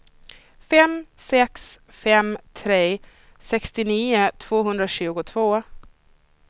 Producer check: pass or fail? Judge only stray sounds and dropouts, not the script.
pass